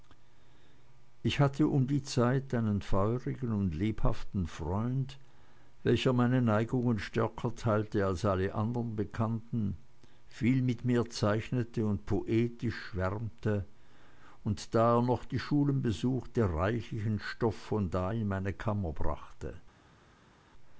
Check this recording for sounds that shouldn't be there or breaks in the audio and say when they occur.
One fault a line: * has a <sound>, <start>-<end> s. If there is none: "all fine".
all fine